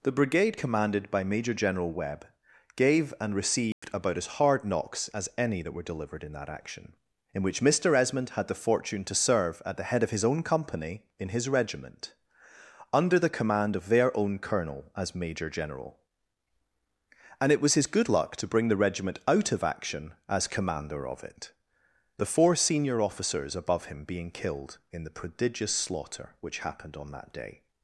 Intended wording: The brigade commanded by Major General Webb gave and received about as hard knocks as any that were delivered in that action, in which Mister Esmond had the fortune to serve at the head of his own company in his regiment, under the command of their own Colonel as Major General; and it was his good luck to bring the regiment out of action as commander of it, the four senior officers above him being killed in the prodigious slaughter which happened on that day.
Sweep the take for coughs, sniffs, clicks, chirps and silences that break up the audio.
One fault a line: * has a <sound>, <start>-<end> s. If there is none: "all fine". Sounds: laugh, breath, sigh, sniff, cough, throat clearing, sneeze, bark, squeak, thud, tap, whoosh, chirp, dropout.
* has a dropout, 3.7-3.8 s